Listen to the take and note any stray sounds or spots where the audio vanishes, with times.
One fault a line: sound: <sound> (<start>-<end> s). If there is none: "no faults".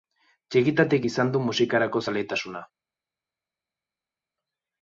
no faults